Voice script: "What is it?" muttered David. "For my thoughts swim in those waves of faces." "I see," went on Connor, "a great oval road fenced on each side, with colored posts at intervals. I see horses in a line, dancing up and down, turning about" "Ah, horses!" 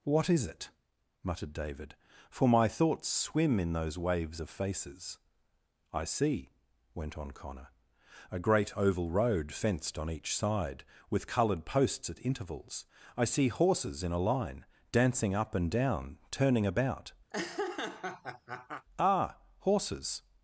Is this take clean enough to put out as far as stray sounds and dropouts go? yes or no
no